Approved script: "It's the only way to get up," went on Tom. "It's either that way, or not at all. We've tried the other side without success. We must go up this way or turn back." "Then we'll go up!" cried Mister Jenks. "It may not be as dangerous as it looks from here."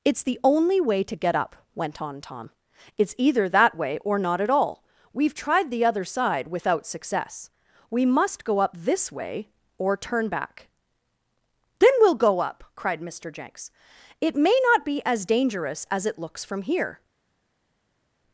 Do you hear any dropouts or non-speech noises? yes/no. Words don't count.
no